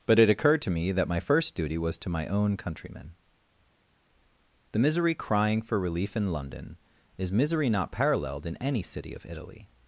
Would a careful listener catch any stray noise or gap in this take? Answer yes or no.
no